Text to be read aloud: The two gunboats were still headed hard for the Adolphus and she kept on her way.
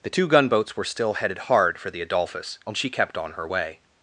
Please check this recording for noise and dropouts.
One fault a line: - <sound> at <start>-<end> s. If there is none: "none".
none